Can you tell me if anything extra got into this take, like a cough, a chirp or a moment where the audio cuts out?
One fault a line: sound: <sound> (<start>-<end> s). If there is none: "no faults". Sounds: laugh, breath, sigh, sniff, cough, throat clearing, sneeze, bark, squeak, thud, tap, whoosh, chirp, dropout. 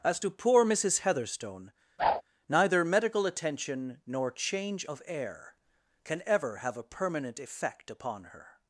sound: whoosh (2.0-2.2 s)